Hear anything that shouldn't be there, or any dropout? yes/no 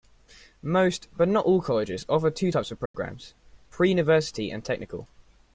yes